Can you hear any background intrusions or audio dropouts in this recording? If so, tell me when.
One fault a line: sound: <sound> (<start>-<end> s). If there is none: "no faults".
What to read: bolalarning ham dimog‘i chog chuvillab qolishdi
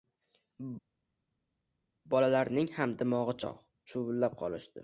no faults